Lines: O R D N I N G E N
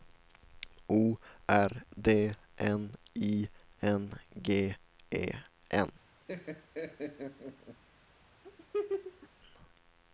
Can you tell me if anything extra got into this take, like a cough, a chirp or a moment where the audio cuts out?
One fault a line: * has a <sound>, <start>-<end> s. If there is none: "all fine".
* has a laugh, 6.3-7.8 s
* has a laugh, 8.4-9.3 s